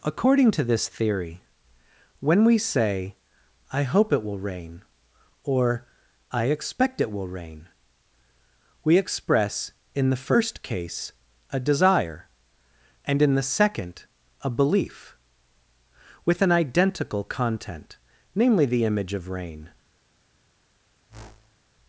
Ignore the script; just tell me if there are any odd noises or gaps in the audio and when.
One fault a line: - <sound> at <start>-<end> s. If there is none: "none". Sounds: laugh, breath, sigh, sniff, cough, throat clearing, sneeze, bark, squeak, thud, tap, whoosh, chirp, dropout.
- whoosh at 21.1-21.6 s